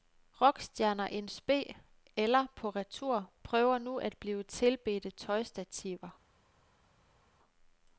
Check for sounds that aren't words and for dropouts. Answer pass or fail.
pass